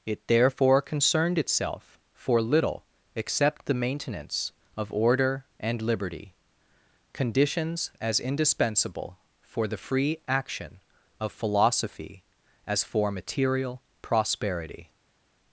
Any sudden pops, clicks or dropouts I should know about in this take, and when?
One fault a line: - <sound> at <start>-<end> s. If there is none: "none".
none